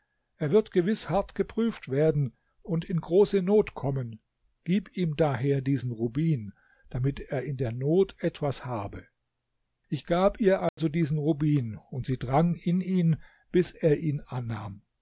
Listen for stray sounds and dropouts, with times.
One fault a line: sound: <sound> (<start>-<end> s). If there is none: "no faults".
sound: dropout (10.7-10.8 s)